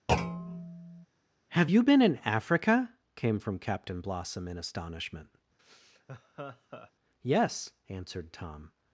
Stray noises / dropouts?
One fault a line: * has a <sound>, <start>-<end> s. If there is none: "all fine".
* has a thud, 0.1-1.1 s
* has a laugh, 5.6-6.9 s